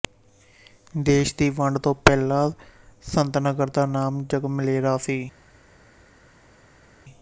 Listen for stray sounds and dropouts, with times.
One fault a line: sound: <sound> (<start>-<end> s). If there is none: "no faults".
no faults